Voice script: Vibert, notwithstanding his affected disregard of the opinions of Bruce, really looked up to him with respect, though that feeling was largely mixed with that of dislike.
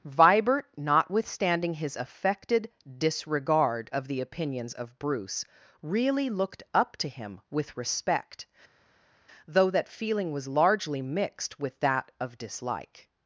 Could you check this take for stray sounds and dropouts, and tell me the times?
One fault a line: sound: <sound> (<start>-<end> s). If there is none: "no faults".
no faults